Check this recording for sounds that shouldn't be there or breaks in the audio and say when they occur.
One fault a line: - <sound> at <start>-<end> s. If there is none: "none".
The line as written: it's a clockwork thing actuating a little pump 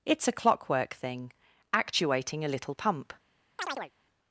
- chirp at 3.6-3.9 s